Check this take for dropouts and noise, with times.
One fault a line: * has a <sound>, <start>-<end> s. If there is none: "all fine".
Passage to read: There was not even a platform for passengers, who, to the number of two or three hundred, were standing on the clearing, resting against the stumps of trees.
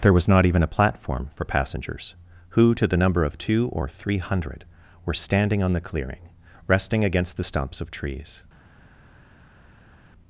all fine